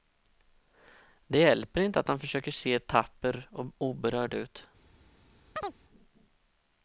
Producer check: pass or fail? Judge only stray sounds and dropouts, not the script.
fail